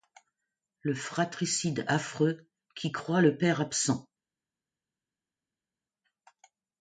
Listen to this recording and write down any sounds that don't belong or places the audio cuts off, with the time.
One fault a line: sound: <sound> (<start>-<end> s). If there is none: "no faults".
no faults